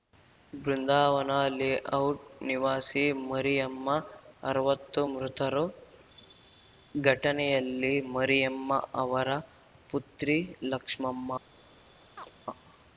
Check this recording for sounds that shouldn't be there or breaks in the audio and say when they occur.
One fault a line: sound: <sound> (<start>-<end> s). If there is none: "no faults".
sound: chirp (12.2-12.3 s)